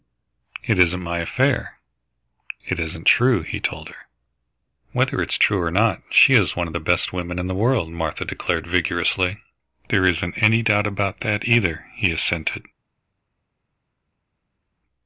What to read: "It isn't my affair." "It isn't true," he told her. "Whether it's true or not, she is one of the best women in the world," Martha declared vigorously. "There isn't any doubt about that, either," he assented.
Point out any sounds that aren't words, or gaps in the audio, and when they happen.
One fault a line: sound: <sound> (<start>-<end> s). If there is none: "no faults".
no faults